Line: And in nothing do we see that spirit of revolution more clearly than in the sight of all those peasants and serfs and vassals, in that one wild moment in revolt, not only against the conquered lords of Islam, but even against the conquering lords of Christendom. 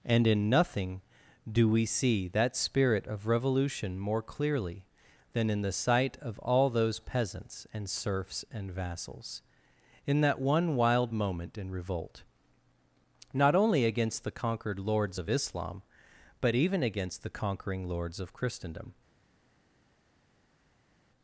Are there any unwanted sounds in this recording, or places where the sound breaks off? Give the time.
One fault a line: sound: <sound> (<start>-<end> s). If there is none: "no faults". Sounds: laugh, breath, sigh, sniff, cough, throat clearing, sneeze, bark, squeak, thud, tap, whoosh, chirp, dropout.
no faults